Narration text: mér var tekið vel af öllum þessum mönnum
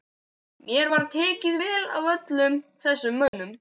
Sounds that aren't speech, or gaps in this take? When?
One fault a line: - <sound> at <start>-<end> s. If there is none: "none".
- dropout at 3.3-3.3 s